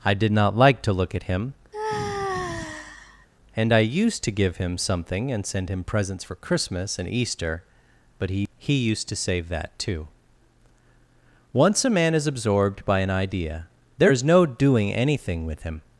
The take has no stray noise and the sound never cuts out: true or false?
false